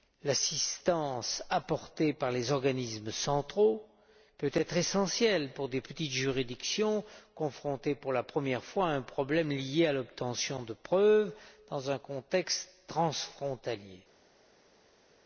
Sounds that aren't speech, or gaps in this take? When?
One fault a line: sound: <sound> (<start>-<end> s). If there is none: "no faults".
no faults